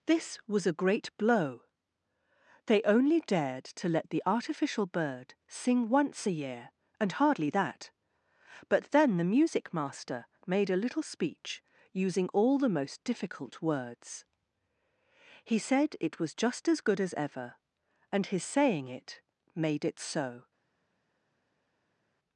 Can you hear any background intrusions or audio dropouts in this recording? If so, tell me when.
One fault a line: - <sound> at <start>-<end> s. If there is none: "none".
none